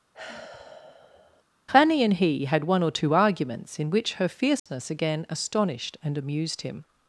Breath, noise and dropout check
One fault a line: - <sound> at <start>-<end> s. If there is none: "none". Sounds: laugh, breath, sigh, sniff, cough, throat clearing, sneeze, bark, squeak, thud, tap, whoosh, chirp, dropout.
- sigh at 0.1-1.4 s
- dropout at 4.6-4.7 s